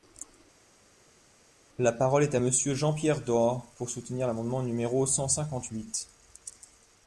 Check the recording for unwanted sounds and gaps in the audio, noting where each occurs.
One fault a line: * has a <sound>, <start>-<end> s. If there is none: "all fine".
all fine